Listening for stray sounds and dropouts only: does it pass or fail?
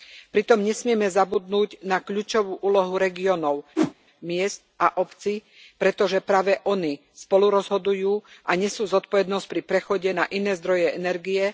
fail